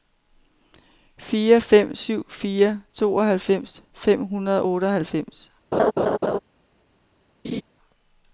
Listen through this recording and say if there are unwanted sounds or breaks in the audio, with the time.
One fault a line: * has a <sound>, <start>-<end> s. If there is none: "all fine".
* has a laugh, 5.7-6.4 s
* has a laugh, 7.4-7.6 s